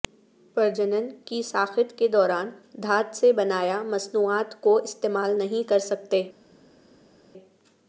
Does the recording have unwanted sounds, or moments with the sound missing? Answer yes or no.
no